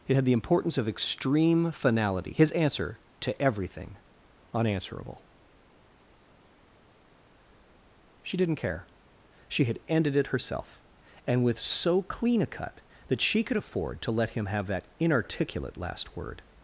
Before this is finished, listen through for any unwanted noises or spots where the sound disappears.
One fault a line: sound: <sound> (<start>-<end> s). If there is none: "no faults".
no faults